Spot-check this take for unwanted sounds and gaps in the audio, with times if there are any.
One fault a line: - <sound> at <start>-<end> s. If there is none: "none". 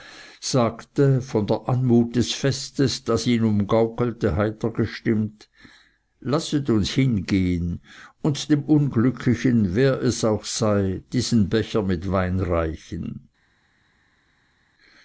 none